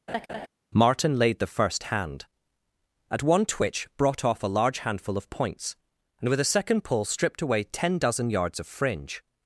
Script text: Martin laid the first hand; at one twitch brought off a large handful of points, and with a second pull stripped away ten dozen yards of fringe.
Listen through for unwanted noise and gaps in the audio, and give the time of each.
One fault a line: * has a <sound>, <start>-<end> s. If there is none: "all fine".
* has a laugh, 0.1-0.5 s